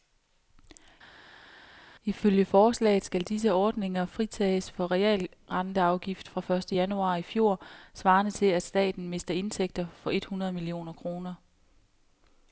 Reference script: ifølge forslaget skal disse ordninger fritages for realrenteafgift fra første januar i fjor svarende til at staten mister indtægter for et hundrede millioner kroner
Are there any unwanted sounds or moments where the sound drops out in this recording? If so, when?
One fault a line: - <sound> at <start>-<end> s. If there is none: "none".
none